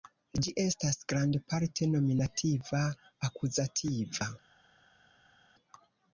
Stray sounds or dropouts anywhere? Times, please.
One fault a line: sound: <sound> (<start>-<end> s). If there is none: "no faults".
no faults